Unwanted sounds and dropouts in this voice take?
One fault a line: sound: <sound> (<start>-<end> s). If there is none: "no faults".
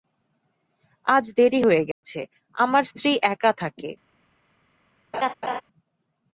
sound: dropout (1.9-2.0 s)
sound: laugh (5.1-5.6 s)